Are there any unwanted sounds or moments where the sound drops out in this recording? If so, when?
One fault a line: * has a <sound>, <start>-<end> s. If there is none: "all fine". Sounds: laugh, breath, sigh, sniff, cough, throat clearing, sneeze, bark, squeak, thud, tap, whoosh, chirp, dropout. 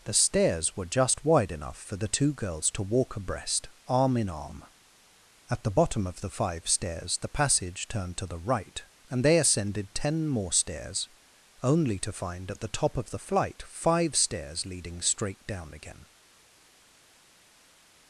all fine